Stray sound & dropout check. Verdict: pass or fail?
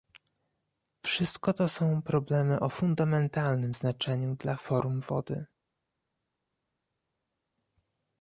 pass